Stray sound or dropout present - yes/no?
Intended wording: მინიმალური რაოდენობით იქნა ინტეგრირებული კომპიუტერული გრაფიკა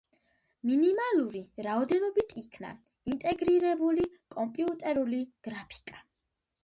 no